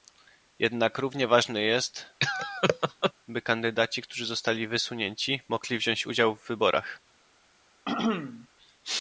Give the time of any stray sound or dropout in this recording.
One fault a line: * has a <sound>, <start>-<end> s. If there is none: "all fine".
* has a laugh, 2.2-3.1 s
* has a throat clearing, 7.9-8.5 s